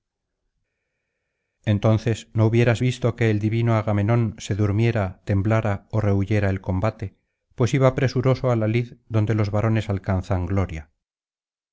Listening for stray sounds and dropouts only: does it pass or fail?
pass